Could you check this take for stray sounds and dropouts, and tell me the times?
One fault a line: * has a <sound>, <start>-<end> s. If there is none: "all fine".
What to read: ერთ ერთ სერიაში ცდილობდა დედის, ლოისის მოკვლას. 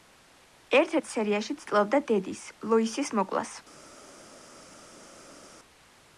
all fine